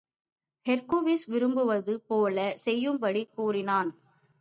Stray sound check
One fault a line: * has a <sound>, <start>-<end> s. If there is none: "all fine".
all fine